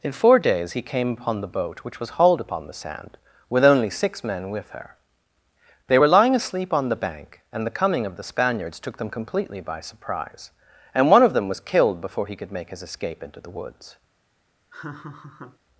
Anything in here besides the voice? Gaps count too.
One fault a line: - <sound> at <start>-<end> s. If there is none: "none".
- laugh at 14.7-15.6 s